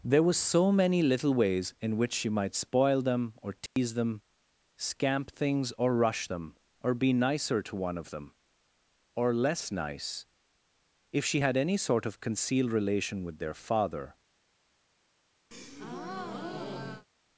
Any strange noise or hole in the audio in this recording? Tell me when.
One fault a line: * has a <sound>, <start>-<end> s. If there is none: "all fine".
* has a dropout, 3.7-3.8 s
* has a breath, 15.5-17.1 s